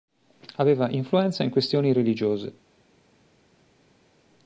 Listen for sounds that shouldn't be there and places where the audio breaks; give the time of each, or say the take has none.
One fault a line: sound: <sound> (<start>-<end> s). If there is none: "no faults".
no faults